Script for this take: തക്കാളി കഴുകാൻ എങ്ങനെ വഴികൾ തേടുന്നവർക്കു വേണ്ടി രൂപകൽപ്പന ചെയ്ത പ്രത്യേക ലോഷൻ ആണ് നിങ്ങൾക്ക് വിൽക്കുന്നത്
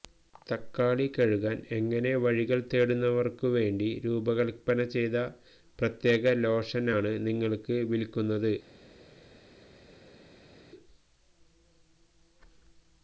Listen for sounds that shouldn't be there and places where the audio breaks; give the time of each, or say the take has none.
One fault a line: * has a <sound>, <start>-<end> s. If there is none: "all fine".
all fine